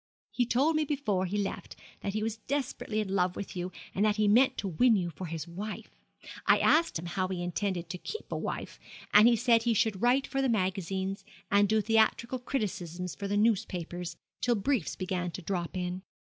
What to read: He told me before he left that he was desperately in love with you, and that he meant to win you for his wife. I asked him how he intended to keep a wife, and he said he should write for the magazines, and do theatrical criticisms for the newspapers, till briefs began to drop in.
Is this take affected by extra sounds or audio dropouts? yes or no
no